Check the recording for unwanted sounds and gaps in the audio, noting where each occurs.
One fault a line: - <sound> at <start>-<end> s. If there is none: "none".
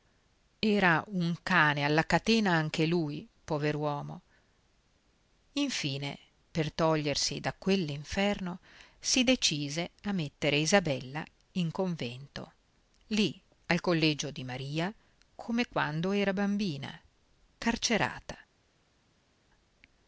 none